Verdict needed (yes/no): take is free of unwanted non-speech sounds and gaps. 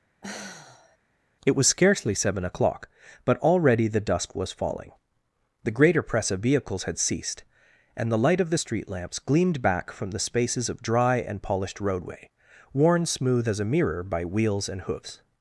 no